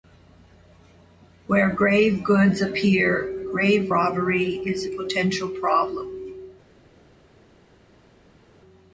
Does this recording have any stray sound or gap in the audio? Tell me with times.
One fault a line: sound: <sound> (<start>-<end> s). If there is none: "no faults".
no faults